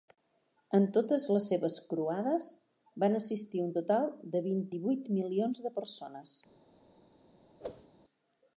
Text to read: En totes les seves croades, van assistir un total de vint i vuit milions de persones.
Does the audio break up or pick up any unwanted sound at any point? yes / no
yes